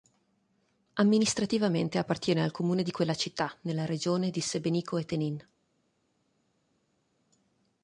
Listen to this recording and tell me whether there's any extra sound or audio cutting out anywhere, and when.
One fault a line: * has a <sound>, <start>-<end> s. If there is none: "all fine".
all fine